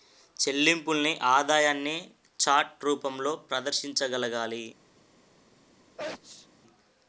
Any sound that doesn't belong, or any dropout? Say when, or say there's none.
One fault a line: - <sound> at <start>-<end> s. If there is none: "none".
- sneeze at 6.0-6.5 s